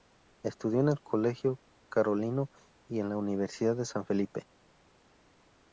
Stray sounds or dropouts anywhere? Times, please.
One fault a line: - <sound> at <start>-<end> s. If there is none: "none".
none